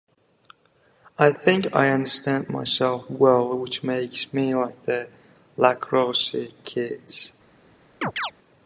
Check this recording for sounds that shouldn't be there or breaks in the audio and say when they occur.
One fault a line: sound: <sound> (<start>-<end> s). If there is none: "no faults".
sound: chirp (8.0-8.3 s)